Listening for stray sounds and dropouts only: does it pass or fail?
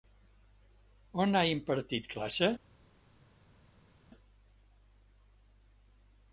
pass